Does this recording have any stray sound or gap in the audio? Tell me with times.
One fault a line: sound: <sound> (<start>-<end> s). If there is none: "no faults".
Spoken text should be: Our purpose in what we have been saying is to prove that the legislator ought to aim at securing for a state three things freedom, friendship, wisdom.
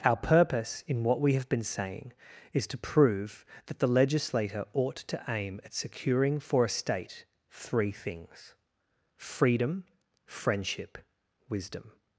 no faults